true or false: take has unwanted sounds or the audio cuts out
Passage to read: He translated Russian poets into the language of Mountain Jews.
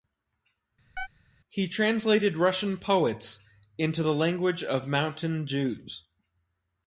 true